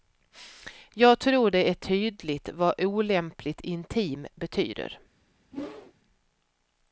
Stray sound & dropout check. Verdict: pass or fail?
fail